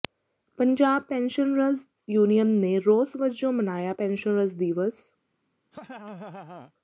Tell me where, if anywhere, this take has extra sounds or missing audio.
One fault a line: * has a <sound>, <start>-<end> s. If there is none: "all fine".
* has a laugh, 5.7-6.7 s